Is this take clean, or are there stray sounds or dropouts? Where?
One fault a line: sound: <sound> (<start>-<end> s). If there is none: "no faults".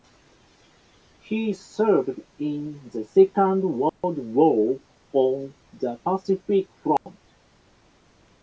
sound: dropout (3.9-4.0 s)
sound: dropout (7.0-7.1 s)